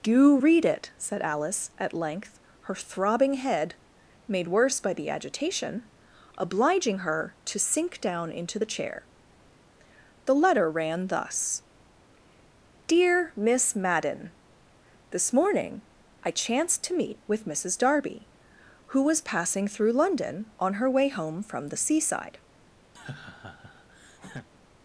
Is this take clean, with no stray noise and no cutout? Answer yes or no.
no